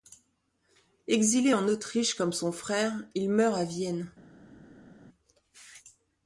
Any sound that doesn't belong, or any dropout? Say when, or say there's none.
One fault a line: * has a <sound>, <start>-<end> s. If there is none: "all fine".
all fine